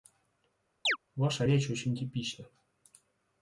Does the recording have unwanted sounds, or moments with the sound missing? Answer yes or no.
yes